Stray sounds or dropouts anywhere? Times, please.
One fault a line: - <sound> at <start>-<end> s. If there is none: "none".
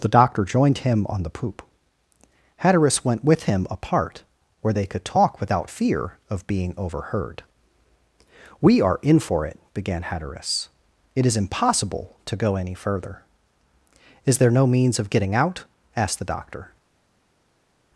none